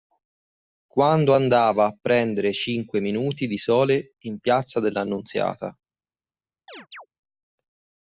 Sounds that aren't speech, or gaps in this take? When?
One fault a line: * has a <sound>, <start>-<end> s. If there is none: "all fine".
* has a chirp, 6.7-7.1 s